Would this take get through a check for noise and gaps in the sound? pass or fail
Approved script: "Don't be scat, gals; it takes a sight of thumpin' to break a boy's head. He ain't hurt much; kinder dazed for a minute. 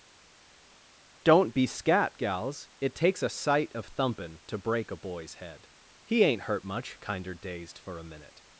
pass